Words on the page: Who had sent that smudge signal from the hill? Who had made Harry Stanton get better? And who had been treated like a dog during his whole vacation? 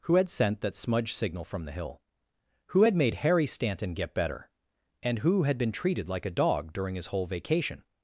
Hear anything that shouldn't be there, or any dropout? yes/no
no